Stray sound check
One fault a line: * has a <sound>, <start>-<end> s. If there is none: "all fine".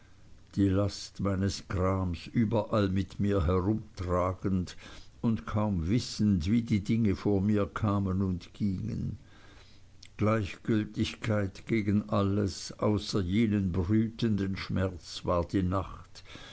all fine